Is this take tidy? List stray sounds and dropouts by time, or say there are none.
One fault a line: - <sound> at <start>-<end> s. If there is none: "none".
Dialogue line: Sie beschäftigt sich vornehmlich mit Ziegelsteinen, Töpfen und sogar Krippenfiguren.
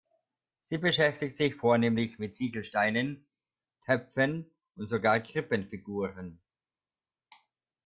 none